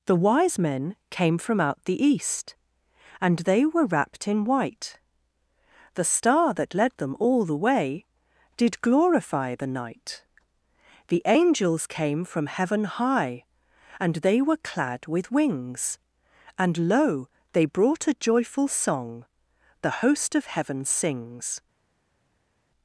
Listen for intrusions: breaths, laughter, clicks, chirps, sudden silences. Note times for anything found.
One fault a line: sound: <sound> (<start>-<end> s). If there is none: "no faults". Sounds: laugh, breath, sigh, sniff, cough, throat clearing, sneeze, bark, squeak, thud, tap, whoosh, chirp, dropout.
no faults